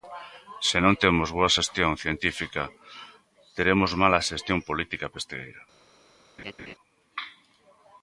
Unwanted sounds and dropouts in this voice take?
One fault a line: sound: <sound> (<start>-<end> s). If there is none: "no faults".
sound: laugh (6.4-6.8 s)